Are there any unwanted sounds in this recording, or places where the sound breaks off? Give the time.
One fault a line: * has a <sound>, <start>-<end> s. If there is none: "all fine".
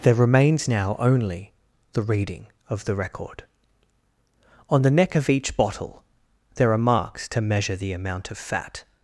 all fine